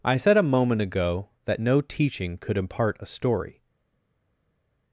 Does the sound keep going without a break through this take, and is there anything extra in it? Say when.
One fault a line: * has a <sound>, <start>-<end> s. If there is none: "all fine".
all fine